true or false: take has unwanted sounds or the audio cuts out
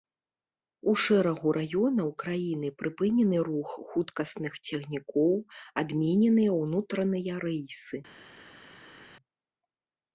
false